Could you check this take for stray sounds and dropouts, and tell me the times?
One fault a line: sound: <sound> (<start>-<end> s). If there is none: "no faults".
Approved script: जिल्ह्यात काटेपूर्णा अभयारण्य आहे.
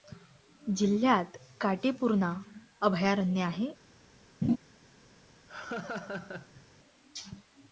sound: laugh (4.4-4.6 s)
sound: laugh (5.5-6.7 s)